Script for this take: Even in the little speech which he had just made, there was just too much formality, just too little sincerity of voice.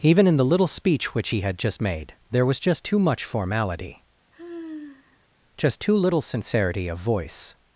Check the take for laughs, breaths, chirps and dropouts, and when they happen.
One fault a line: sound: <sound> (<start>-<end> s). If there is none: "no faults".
sound: sigh (4.3-5.3 s)